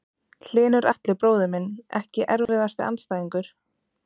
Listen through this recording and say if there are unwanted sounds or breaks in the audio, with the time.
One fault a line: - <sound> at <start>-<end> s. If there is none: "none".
- dropout at 2.5-2.5 s